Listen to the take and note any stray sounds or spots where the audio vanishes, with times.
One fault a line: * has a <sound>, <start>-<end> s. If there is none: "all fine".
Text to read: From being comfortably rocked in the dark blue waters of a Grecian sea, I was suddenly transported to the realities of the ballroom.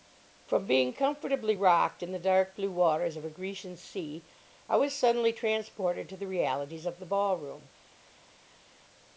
all fine